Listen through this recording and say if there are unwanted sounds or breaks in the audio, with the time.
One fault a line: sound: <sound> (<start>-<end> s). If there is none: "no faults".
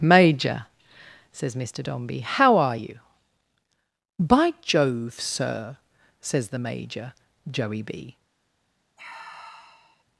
sound: sigh (9.0-10.0 s)